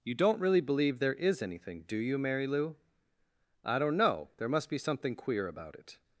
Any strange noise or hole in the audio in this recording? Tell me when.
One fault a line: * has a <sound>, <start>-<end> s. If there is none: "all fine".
all fine